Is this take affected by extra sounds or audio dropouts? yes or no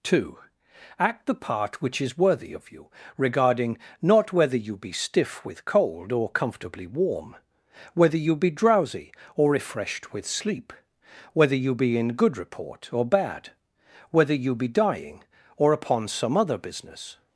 no